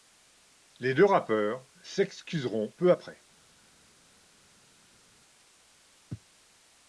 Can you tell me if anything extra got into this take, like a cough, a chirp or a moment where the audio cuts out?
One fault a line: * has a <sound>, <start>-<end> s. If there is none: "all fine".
all fine